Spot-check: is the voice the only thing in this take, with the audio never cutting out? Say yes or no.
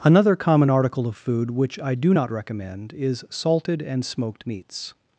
yes